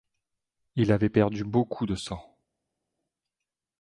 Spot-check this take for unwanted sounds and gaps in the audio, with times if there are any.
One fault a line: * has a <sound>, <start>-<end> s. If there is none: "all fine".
all fine